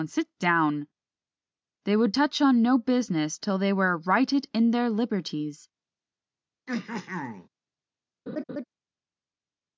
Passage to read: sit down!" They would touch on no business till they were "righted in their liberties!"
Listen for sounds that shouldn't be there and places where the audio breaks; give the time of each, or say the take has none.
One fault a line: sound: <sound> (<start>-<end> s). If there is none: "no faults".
sound: throat clearing (6.7-7.5 s)
sound: laugh (8.3-8.6 s)